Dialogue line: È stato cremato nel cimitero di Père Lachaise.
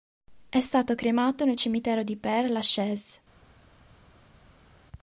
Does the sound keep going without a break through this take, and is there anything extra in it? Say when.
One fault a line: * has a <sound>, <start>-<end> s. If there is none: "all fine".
all fine